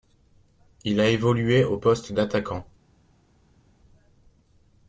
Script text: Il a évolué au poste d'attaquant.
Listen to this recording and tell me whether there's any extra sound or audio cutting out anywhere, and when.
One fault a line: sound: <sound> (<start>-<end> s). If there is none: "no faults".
no faults